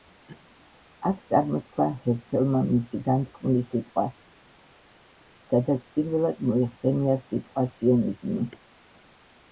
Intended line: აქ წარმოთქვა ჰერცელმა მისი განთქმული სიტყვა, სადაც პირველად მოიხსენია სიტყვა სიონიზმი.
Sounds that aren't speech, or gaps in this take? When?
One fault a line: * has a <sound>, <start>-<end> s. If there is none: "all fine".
all fine